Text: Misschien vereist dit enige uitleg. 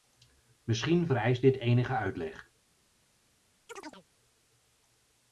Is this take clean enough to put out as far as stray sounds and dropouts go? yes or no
no